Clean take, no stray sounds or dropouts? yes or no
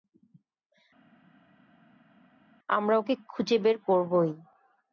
yes